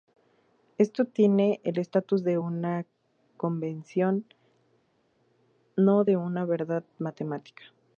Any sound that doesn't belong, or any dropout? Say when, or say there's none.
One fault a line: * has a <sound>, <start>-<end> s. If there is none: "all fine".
all fine